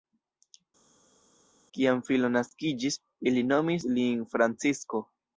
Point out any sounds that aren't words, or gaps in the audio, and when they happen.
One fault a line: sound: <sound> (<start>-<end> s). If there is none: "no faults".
no faults